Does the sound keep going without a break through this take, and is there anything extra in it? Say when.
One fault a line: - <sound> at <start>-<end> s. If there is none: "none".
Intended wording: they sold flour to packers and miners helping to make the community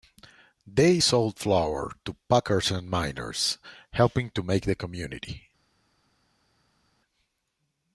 none